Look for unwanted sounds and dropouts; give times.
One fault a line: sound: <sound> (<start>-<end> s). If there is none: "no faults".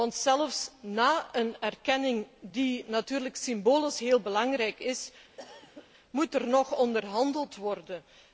sound: cough (5.4-5.9 s)